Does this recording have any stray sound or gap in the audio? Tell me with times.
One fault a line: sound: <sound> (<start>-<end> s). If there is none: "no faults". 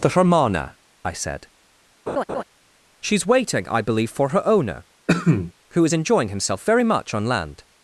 sound: laugh (2.1-2.4 s)
sound: cough (5.1-5.5 s)